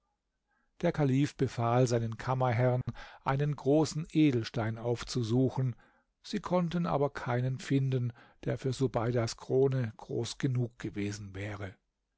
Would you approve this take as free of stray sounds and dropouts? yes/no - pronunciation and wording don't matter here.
no